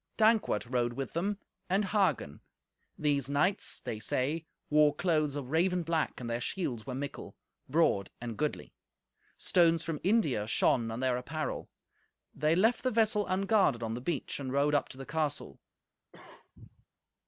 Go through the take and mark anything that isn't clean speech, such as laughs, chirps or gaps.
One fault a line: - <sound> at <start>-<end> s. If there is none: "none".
- cough at 16.1-16.9 s